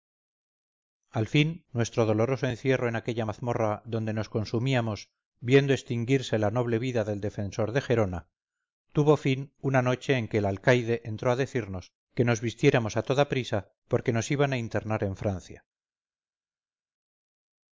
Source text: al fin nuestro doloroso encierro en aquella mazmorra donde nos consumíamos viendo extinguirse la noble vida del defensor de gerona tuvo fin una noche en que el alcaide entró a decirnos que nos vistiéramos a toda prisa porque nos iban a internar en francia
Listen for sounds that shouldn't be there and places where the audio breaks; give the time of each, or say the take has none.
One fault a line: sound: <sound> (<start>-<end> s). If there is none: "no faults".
no faults